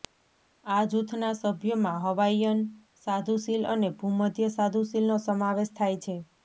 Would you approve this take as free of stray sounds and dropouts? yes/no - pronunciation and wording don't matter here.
yes